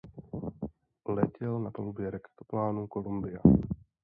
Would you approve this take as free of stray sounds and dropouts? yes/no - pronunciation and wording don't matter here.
yes